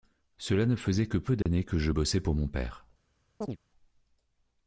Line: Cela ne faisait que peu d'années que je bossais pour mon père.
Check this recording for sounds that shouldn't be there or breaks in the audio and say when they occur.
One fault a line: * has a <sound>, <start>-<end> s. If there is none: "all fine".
* has a dropout, 1.4-1.5 s
* has a chirp, 3.4-3.6 s